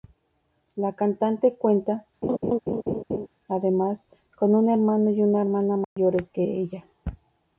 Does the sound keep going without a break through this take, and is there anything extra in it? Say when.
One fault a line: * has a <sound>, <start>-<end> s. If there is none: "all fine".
* has a laugh, 2.2-3.3 s
* has a dropout, 5.8-6.0 s